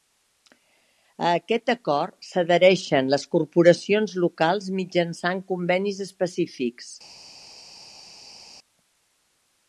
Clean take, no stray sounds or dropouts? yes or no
yes